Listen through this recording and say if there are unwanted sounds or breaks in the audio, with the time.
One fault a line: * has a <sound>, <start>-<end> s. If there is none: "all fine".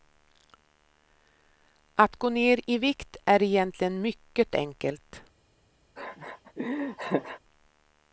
* has a laugh, 6.0-7.4 s